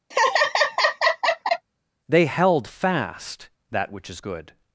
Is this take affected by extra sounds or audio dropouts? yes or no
yes